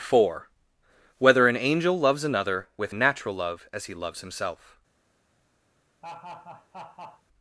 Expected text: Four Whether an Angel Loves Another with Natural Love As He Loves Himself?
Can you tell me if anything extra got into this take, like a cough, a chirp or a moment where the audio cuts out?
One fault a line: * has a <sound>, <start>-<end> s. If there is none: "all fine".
* has a laugh, 6.0-7.2 s